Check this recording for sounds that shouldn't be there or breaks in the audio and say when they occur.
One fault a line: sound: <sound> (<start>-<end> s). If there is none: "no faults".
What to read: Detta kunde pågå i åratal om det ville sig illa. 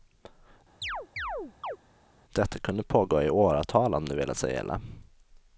sound: chirp (0.8-1.8 s)